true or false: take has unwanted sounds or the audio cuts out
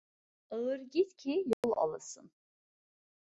true